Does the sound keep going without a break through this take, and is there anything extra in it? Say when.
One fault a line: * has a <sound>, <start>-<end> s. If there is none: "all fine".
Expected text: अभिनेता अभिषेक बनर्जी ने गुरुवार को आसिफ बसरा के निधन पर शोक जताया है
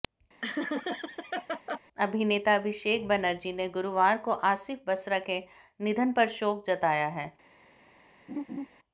* has a laugh, 0.4-1.8 s
* has a laugh, 8.3-8.7 s